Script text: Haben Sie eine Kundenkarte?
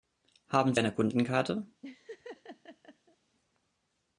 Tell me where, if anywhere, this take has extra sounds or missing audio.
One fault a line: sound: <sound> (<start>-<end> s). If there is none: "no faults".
sound: laugh (1.8-3.2 s)